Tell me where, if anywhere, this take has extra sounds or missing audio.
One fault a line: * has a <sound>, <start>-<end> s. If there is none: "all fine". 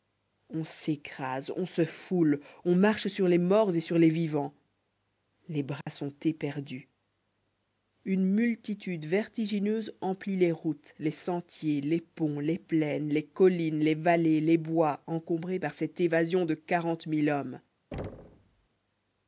* has a dropout, 5.8-5.9 s
* has a thud, 17.9-18.7 s